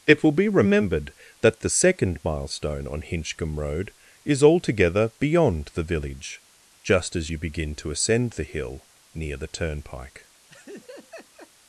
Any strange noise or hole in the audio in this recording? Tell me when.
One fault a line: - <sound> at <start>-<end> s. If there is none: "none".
- laugh at 10.5-11.5 s